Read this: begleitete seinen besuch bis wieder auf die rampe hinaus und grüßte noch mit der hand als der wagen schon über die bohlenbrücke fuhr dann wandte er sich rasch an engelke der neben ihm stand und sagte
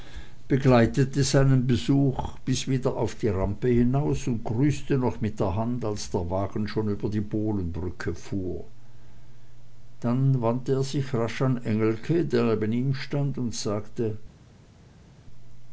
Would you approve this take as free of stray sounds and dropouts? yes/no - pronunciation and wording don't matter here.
yes